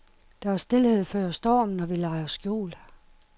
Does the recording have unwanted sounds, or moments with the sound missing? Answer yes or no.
no